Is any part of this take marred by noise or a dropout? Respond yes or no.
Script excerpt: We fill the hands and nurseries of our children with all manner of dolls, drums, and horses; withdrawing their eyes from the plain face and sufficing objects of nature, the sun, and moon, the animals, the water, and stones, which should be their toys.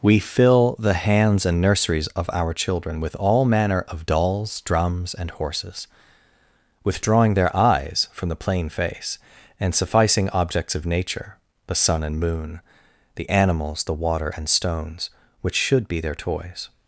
no